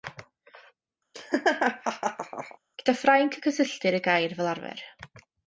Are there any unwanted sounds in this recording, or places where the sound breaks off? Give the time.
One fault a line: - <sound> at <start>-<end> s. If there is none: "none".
- laugh at 1.1-2.6 s